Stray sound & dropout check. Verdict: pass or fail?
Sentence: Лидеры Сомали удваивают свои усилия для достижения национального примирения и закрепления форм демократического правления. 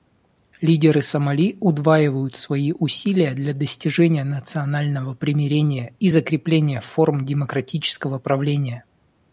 pass